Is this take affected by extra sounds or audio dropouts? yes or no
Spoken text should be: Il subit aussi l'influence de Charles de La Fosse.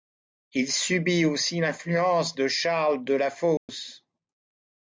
yes